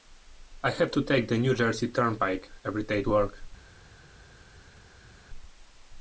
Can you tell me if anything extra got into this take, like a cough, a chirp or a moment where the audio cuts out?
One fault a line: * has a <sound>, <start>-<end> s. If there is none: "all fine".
all fine